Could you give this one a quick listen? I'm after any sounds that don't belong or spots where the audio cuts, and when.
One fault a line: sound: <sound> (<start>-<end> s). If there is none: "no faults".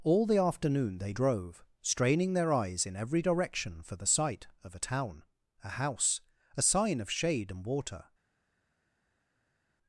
no faults